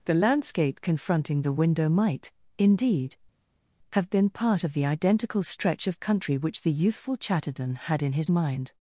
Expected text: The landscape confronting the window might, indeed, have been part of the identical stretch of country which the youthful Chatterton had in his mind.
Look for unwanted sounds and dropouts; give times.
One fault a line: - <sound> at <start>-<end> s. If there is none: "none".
none